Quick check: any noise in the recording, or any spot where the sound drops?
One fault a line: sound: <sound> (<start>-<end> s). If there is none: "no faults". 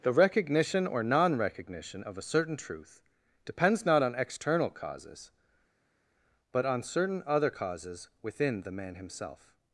no faults